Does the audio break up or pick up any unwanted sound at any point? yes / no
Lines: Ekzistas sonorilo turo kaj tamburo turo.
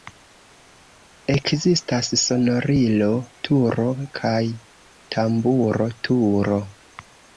no